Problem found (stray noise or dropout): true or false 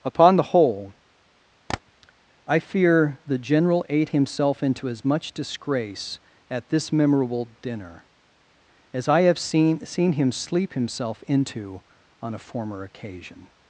true